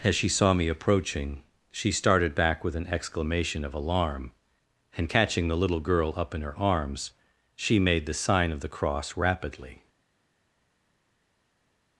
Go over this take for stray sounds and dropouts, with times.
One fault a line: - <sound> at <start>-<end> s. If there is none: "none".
none